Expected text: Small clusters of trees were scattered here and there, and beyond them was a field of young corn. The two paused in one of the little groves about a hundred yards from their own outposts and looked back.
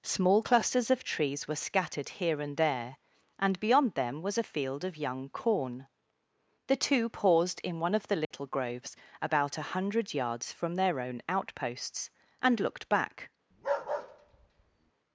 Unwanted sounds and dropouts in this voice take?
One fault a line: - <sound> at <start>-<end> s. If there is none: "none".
- dropout at 8.2-8.3 s
- bark at 13.5-14.9 s